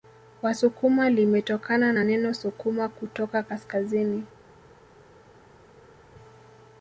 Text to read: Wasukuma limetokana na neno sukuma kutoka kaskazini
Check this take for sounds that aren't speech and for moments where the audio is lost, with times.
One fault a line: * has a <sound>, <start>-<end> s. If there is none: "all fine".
all fine